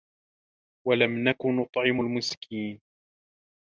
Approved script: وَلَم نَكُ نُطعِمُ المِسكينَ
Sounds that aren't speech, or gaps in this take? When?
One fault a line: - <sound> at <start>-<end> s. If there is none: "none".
none